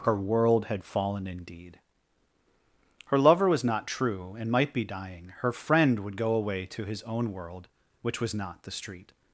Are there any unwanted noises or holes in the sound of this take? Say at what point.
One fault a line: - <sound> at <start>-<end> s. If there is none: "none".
none